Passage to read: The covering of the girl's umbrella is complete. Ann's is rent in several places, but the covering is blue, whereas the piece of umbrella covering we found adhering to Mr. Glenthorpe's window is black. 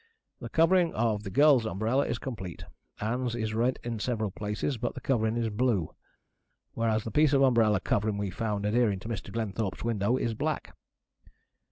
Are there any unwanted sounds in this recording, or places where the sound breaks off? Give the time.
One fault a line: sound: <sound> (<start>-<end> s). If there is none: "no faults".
no faults